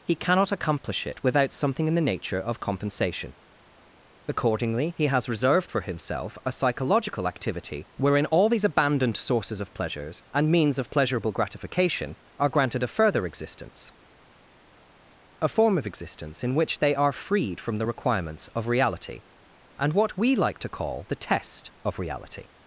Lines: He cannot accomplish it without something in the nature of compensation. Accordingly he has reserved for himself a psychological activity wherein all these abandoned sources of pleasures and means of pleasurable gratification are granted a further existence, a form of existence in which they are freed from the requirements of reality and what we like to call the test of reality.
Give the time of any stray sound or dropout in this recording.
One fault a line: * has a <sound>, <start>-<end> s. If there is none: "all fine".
all fine